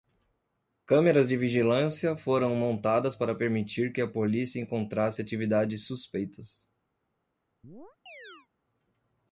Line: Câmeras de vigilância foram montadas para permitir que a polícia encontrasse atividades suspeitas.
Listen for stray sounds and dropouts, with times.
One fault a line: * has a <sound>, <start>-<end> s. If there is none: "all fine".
* has a chirp, 7.6-8.5 s